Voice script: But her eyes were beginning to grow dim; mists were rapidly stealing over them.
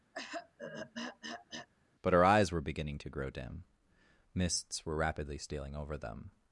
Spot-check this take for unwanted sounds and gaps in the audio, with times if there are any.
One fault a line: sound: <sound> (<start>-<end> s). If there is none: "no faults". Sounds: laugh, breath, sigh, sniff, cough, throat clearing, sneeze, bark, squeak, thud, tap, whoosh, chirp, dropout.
sound: throat clearing (0.1-1.7 s)